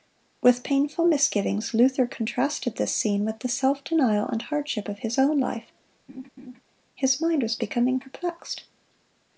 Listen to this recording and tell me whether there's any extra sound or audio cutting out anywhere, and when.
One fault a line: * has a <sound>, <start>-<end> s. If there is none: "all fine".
* has a laugh, 6.1-6.6 s